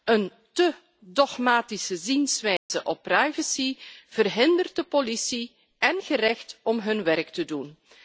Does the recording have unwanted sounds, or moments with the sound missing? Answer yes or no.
yes